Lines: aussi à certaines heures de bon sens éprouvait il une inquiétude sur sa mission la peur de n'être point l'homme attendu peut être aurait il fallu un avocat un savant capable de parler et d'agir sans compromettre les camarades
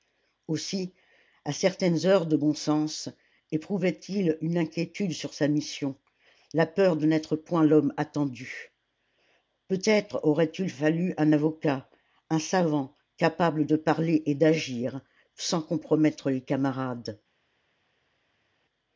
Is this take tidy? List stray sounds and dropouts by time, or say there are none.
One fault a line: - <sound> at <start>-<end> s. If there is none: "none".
none